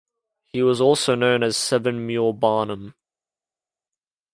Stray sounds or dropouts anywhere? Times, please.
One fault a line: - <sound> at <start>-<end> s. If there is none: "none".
none